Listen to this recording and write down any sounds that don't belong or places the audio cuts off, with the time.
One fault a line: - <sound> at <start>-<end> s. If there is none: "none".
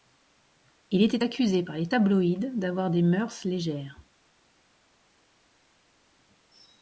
none